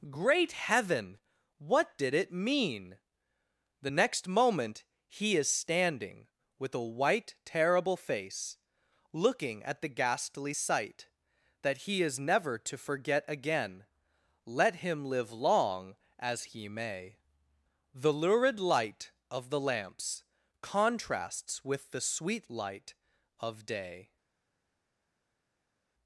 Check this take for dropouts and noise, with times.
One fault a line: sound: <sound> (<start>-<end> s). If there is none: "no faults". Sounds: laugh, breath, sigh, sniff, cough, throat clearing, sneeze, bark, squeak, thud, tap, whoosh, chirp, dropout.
no faults